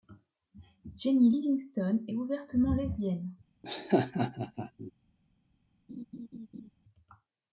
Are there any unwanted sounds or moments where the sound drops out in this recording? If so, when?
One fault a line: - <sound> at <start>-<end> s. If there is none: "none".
- laugh at 3.6-4.9 s
- laugh at 5.9-6.7 s